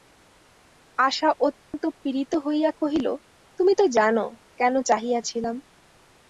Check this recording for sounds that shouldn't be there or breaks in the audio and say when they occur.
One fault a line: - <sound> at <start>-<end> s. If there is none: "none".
- dropout at 1.6-1.7 s